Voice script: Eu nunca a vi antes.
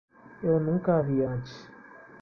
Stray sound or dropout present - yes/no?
no